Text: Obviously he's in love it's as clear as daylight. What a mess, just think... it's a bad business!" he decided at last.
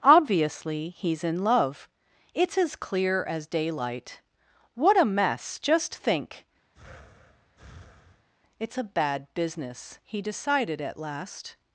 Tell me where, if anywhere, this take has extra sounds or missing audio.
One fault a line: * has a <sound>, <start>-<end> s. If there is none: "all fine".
* has a breath, 6.7-8.3 s